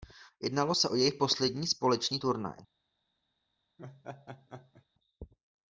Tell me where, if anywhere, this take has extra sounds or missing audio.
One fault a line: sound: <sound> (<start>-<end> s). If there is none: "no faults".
sound: laugh (3.8-4.9 s)